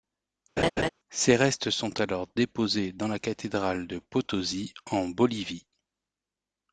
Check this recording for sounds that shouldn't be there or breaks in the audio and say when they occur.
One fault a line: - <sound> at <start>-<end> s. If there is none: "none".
- laugh at 0.6-0.9 s